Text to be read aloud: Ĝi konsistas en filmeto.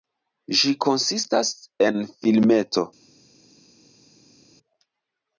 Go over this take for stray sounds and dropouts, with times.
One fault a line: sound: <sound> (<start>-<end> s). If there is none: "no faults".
no faults